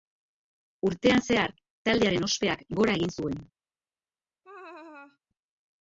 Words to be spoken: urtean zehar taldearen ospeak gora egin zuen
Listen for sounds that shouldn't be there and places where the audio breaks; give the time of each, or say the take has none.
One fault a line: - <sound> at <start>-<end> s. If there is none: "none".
- laugh at 4.4-5.2 s